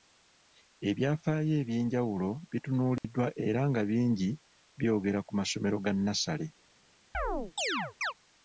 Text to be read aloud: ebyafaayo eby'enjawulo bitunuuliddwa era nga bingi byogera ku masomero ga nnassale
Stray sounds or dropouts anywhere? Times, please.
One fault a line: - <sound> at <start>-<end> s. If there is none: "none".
- dropout at 3.0-3.0 s
- chirp at 7.1-8.1 s